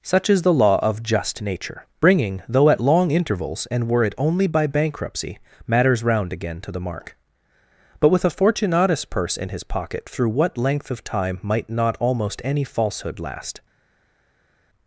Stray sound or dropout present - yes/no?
no